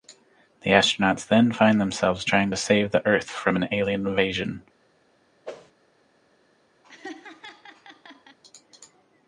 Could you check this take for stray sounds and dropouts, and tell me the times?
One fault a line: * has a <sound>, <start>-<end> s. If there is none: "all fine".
* has a whoosh, 5.4-5.7 s
* has a laugh, 6.8-8.4 s